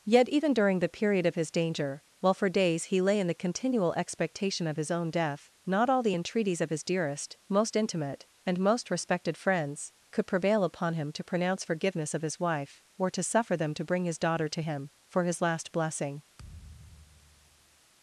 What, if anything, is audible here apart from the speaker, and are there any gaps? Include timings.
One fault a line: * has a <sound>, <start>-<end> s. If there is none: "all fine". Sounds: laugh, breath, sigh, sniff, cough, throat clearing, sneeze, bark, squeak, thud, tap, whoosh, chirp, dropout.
* has a thud, 16.4-17.8 s